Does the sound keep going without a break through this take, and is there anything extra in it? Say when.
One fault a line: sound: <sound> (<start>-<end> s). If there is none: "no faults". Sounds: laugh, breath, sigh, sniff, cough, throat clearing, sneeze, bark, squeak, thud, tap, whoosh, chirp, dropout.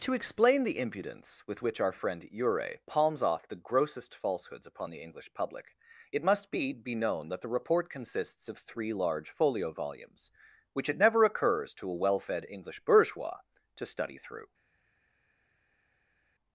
no faults